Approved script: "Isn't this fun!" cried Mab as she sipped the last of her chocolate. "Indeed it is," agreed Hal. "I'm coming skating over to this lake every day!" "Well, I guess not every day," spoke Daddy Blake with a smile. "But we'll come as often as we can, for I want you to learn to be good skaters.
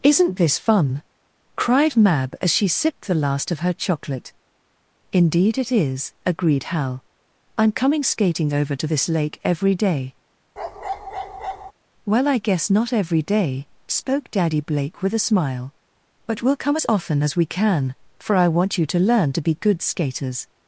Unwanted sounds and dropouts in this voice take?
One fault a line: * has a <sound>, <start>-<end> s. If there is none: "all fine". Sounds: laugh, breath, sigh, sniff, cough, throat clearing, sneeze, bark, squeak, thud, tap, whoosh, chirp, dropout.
* has a bark, 10.6-11.7 s